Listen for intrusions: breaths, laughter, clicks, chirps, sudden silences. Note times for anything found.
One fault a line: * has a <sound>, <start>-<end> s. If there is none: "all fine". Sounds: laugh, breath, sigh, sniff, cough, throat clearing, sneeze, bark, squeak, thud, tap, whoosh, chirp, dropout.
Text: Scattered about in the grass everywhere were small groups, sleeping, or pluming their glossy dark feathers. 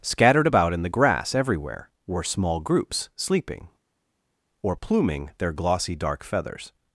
all fine